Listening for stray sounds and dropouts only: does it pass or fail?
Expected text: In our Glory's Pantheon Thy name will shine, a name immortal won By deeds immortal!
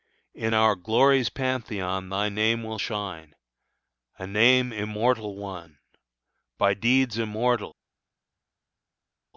pass